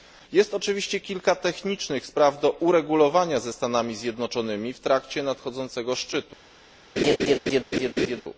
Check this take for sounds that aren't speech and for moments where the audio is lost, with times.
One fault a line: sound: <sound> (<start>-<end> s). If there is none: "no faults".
sound: laugh (7.0-8.2 s)